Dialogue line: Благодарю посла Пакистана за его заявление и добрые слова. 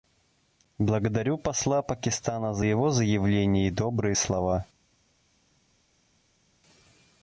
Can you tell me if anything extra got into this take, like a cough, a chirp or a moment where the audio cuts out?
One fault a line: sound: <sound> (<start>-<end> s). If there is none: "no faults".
no faults